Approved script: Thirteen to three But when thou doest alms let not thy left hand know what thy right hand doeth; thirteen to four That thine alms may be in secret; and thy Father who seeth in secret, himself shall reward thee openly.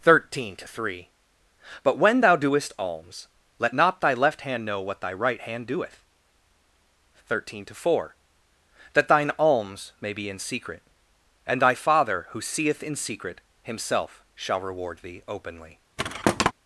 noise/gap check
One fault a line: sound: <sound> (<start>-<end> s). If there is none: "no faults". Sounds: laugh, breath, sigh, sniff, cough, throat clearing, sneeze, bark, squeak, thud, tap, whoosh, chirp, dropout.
sound: thud (16.0-16.5 s)